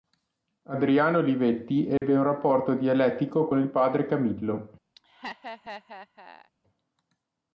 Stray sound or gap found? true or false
true